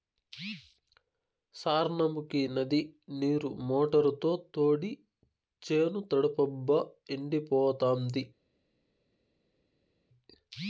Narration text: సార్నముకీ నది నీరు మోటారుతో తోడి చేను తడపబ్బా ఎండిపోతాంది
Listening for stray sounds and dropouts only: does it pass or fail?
pass